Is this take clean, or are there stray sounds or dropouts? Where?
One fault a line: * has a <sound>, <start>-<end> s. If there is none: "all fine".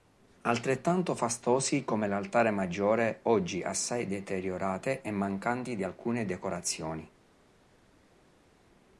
all fine